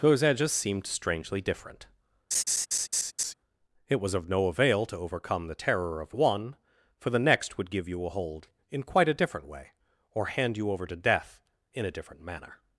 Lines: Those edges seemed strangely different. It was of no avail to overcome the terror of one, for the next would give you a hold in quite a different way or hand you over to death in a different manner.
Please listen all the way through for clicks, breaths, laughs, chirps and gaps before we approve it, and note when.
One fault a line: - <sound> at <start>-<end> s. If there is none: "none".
- laugh at 2.3-3.3 s